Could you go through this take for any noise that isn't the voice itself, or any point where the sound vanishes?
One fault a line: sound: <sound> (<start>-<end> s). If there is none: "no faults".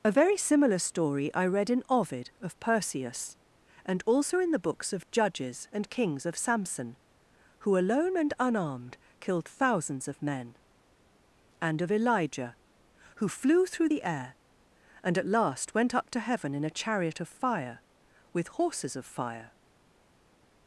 no faults